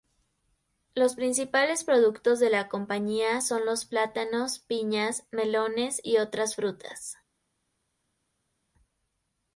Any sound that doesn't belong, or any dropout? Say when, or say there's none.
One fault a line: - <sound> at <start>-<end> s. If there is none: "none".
none